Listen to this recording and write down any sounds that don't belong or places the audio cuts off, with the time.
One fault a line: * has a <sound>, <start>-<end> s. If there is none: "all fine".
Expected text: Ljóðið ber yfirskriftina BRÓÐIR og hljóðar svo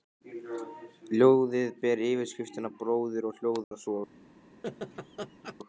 * has a dropout, 3.6-3.7 s
* has a laugh, 4.6-5.6 s